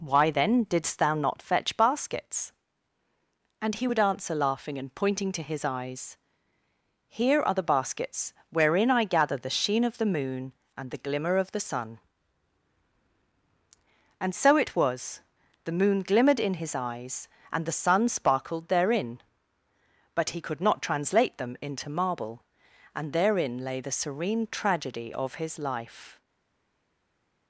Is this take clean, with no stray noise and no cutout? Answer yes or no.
yes